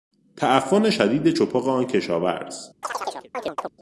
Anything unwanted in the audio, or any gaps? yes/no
yes